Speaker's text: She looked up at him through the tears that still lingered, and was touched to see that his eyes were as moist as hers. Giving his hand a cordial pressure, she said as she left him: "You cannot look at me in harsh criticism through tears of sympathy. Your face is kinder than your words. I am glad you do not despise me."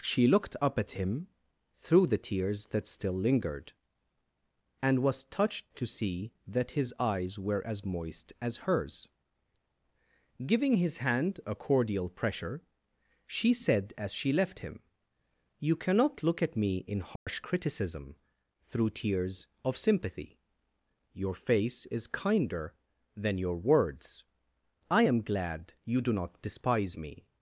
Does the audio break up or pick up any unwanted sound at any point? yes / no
yes